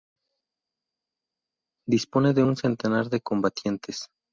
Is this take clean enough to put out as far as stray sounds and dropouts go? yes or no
yes